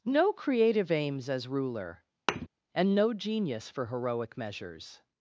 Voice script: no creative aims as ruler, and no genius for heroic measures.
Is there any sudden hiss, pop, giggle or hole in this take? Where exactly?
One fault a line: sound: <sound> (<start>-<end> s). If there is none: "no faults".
sound: thud (2.3-2.5 s)